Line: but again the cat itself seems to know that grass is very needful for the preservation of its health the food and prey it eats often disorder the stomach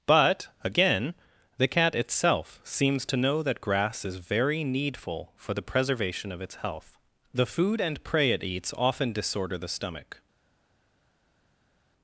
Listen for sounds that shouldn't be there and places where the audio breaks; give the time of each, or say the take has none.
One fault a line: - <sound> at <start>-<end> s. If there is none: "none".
none